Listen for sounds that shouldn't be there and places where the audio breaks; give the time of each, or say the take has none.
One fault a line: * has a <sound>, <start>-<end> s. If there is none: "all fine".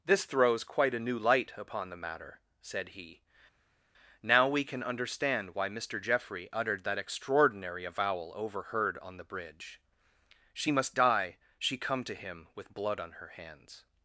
all fine